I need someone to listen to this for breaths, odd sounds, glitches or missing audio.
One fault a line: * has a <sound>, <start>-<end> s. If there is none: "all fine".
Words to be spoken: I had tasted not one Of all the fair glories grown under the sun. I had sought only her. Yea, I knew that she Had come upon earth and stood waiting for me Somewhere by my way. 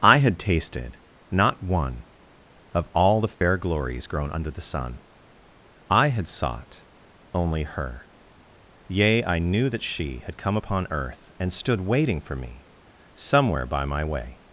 * has a dropout, 3.3-3.4 s